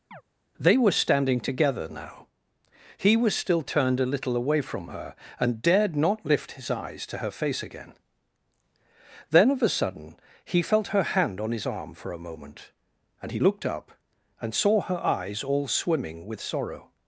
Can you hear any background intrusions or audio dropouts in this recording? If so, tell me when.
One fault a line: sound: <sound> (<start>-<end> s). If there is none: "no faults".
sound: chirp (0.1-0.2 s)